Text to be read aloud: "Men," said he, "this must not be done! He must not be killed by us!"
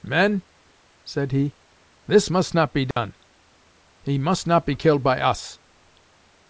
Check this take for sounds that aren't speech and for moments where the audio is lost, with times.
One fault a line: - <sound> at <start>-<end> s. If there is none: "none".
- dropout at 2.9-3.0 s